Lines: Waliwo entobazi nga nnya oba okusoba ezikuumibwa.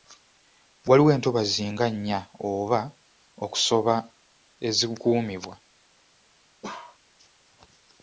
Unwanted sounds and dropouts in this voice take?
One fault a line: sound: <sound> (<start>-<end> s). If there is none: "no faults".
sound: bark (6.6-7.0 s)